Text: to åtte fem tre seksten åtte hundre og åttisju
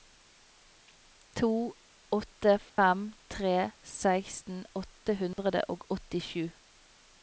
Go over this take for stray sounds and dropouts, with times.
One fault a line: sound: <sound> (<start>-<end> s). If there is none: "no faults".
sound: dropout (2.7-2.8 s)
sound: dropout (5.3-5.4 s)